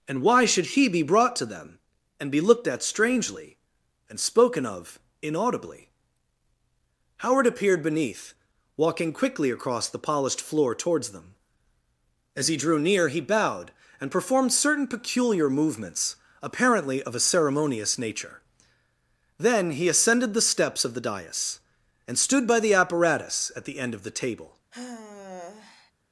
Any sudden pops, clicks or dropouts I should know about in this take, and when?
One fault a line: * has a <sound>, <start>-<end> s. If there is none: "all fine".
* has a sigh, 24.7-25.9 s